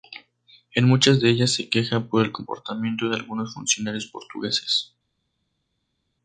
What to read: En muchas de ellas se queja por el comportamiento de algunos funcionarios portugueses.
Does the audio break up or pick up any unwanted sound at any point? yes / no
no